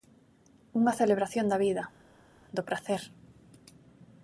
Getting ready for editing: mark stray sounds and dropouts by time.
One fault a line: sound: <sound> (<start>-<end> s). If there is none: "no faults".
no faults